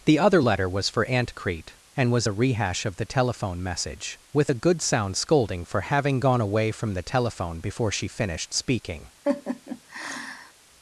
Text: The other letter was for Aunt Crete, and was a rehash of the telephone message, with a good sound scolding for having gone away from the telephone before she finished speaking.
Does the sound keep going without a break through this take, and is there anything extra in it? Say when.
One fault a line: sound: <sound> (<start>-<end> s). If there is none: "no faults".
sound: laugh (9.2-10.5 s)